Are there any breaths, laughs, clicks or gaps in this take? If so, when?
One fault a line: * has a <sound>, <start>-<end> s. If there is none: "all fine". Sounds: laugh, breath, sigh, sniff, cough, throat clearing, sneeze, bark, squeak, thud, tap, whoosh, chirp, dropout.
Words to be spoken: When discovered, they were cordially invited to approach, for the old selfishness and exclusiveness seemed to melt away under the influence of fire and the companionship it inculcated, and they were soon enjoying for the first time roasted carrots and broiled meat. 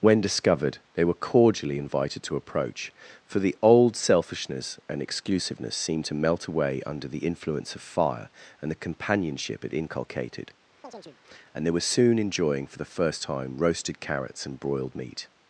* has a chirp, 10.8-11.2 s